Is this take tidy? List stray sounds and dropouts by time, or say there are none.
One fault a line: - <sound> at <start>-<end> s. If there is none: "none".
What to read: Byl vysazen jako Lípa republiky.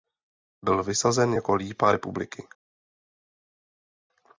none